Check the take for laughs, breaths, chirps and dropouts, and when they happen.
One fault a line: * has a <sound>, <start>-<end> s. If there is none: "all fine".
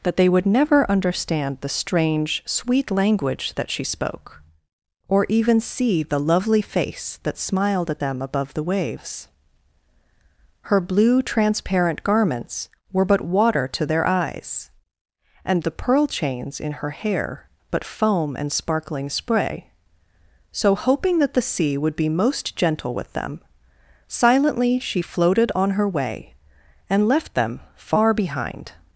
all fine